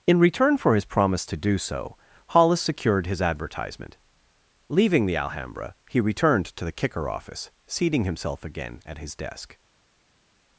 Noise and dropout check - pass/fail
pass